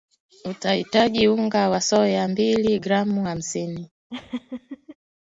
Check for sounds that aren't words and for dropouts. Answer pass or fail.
fail